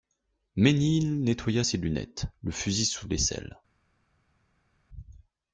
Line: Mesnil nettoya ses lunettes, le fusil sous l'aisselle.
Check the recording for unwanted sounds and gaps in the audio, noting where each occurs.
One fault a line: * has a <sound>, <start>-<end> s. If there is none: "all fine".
all fine